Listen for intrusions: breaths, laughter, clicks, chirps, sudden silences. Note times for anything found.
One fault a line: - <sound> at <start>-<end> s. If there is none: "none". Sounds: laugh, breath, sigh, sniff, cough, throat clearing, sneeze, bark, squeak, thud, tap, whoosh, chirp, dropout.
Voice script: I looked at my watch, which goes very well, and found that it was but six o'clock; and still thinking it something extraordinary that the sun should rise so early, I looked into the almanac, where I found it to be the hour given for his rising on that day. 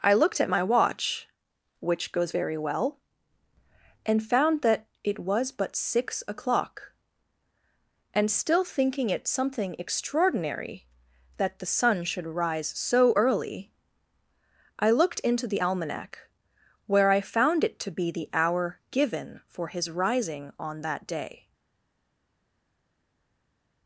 none